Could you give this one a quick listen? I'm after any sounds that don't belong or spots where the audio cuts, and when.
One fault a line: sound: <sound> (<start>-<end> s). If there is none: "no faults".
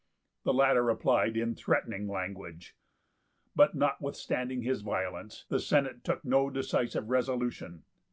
no faults